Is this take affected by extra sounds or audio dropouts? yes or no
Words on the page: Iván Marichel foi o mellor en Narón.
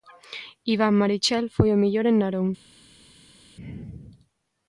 no